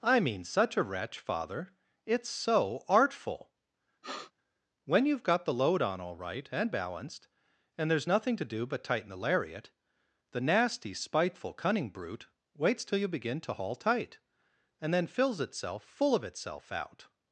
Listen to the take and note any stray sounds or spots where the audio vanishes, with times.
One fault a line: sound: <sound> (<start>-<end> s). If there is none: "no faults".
sound: sniff (4.0-4.3 s)